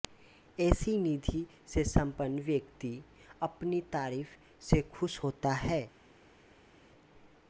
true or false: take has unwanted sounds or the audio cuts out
false